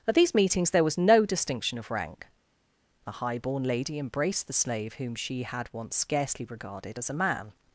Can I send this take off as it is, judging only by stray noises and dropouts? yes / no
yes